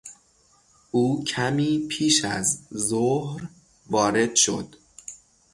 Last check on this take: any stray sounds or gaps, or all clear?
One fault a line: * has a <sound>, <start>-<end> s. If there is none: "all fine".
all fine